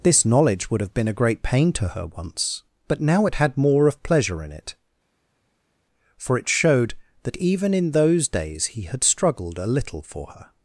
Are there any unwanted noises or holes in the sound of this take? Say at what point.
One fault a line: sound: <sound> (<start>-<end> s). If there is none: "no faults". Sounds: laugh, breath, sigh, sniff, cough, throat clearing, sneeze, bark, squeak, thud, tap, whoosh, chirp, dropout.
no faults